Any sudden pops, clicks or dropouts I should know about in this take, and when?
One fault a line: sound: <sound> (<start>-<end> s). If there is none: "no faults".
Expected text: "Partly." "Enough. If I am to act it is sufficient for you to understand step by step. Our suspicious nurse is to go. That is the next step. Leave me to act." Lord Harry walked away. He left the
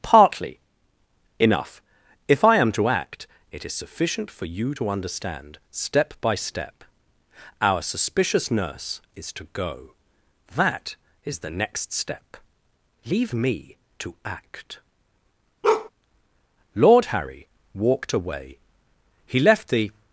sound: bark (15.6-15.9 s)